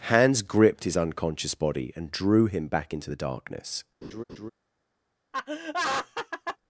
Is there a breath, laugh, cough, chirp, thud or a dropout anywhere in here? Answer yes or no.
yes